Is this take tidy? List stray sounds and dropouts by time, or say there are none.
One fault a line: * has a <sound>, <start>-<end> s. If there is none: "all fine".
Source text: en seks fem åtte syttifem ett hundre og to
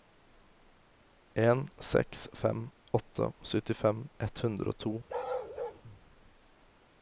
* has a bark, 5.1-5.8 s